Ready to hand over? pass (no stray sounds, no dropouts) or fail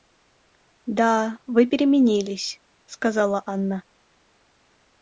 pass